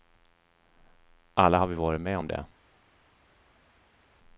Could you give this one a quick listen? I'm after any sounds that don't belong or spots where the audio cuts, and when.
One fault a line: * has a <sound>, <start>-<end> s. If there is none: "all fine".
all fine